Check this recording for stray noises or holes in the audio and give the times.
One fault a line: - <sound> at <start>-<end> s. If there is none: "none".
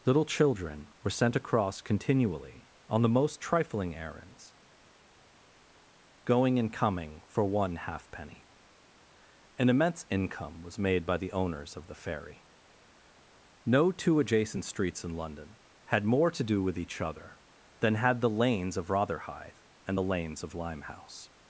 none